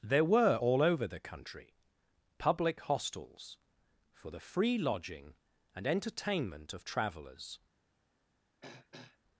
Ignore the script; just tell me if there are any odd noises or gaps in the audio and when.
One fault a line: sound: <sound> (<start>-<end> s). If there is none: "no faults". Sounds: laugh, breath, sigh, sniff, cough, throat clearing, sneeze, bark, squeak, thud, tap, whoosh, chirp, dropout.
sound: throat clearing (8.6-9.2 s)